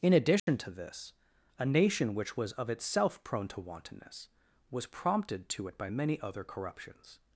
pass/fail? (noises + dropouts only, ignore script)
fail